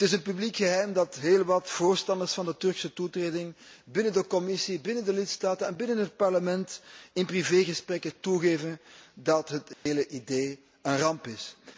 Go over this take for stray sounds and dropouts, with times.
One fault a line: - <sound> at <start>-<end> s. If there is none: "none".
- dropout at 9.7-9.9 s